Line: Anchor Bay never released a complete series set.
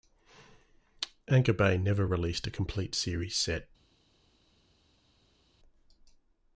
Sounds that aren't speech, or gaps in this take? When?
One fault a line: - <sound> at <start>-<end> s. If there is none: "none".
none